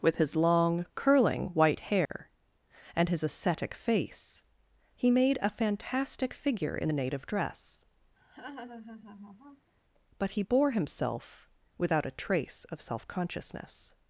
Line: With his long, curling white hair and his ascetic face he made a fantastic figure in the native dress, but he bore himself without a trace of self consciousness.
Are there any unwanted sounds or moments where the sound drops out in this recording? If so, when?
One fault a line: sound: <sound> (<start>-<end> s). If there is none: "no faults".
sound: dropout (2.1-2.1 s)
sound: laugh (8.2-9.7 s)